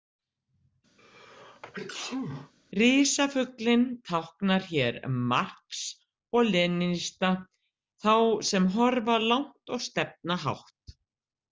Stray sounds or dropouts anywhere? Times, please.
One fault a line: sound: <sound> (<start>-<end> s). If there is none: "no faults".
sound: sneeze (1.0-2.5 s)